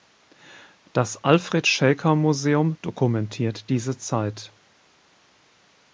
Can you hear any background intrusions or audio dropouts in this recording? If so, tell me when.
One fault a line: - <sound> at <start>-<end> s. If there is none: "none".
none